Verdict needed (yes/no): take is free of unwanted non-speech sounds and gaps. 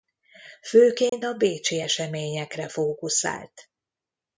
no